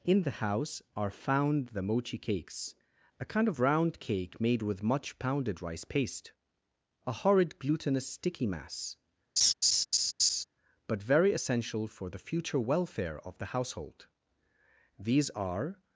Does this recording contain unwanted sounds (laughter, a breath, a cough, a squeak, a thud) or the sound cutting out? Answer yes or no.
yes